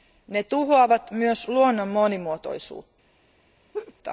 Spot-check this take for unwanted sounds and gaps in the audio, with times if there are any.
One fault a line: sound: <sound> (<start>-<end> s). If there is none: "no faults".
sound: laugh (3.7-3.9 s)